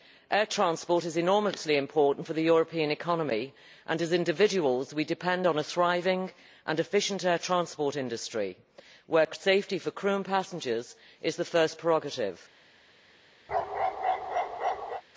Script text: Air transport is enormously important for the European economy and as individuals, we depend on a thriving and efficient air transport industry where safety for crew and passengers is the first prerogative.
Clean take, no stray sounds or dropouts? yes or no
no